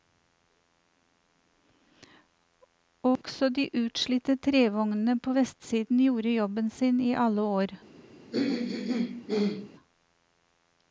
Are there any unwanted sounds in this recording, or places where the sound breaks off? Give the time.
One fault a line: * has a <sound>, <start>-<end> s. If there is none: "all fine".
* has a dropout, 3.2-3.2 s
* has a throat clearing, 8.3-9.7 s